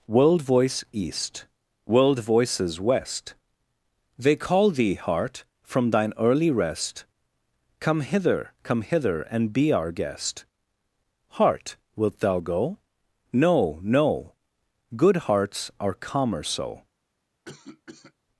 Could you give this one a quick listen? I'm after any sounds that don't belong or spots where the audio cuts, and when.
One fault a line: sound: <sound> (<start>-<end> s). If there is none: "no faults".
sound: cough (17.5-18.1 s)